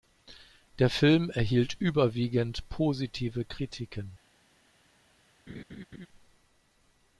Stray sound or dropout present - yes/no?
yes